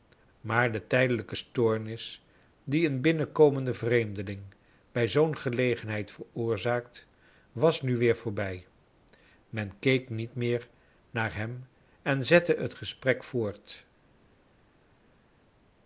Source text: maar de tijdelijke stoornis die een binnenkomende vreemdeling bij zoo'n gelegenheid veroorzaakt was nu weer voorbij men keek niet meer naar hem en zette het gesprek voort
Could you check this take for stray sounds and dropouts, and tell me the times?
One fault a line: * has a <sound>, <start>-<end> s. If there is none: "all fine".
all fine